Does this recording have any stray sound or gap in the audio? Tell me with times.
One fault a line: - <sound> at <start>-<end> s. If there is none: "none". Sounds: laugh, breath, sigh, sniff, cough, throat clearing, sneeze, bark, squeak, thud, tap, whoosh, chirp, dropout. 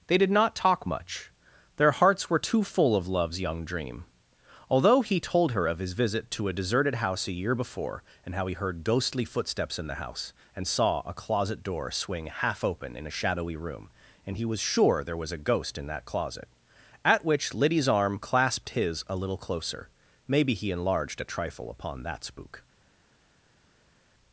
none